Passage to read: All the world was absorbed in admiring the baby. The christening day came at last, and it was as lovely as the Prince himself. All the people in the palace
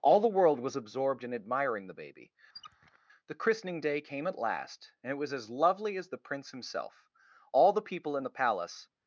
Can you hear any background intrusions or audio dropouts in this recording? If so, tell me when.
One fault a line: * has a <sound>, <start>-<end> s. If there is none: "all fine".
* has a squeak, 2.5-3.0 s